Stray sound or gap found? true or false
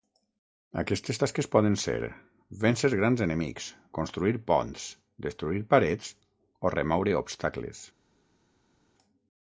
false